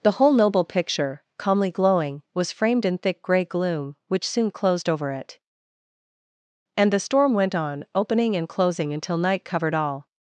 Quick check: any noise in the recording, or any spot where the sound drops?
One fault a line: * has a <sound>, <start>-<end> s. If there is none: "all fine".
all fine